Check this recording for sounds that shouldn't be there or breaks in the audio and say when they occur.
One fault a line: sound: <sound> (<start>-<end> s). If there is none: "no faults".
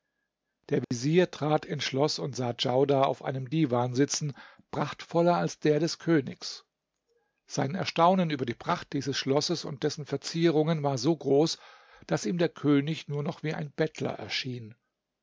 sound: dropout (0.8-0.9 s)